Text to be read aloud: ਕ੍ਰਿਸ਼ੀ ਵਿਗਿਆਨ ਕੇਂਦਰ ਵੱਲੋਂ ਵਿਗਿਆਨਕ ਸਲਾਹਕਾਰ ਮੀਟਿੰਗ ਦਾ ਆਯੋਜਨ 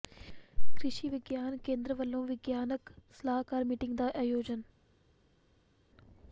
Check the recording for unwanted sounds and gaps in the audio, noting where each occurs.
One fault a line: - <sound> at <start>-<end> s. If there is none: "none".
none